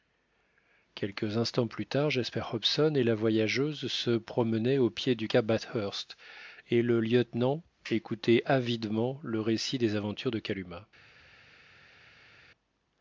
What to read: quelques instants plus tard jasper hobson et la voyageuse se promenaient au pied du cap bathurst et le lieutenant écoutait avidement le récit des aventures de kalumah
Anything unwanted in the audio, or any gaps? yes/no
no